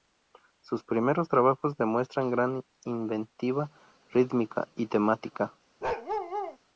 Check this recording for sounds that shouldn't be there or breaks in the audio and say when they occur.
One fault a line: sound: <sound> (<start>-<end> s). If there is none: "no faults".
sound: bark (5.8-6.6 s)